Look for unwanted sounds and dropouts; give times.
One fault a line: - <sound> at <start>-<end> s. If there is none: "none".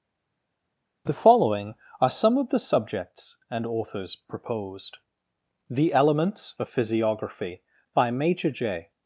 none